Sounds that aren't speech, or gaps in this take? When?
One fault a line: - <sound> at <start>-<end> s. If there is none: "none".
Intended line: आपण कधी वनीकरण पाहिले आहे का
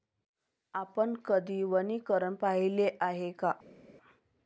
none